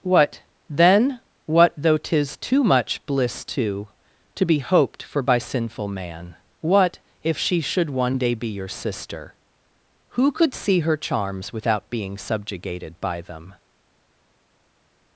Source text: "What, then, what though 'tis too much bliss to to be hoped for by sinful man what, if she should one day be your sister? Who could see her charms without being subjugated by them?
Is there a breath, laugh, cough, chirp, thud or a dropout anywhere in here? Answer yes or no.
no